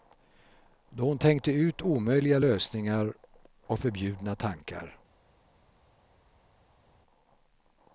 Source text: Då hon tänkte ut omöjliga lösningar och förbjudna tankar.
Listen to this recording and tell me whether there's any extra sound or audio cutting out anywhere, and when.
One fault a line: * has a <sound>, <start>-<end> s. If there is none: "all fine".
all fine